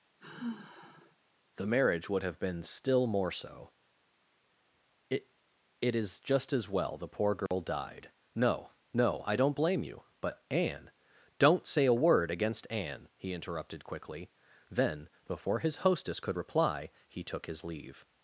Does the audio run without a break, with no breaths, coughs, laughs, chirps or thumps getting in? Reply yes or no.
no